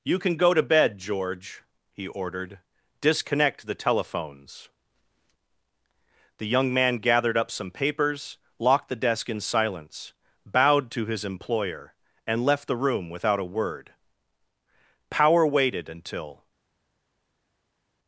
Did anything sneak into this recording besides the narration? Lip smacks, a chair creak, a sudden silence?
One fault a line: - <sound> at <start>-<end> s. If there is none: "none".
none